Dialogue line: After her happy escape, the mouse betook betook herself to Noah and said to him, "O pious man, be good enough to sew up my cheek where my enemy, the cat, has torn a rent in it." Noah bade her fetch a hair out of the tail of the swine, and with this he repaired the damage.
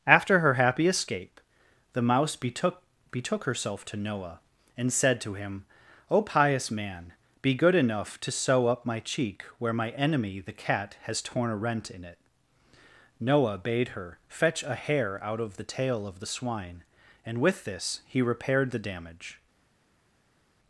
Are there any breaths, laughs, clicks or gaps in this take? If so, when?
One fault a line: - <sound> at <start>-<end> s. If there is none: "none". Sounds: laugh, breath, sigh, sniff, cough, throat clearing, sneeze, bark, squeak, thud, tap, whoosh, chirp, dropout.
none